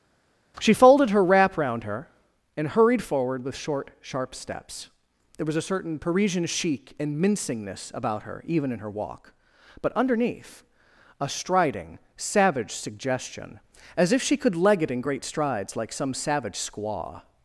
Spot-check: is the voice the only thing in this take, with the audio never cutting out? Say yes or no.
yes